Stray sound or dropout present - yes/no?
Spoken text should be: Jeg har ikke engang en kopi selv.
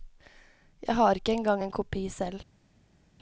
no